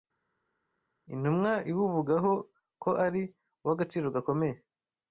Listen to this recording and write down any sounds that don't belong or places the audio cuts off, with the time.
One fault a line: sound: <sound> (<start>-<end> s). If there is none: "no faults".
no faults